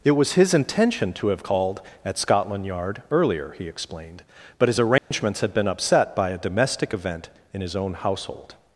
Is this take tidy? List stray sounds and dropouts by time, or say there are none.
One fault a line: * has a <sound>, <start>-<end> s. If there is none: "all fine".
* has a dropout, 5.0-5.1 s